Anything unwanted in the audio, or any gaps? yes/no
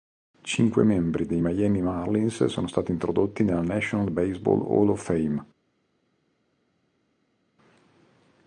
no